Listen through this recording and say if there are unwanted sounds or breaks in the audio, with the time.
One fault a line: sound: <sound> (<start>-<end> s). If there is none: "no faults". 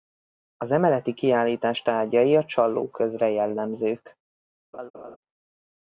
sound: laugh (4.7-5.2 s)